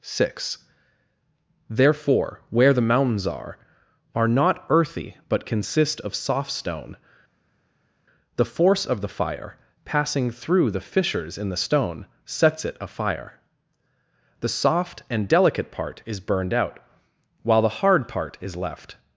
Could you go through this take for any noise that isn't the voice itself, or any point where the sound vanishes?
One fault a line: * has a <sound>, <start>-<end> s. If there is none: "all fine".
all fine